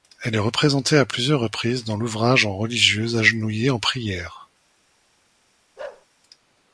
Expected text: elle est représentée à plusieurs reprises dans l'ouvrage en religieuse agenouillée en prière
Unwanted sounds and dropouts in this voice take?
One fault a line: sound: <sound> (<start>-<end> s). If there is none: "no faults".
sound: bark (5.8-6.1 s)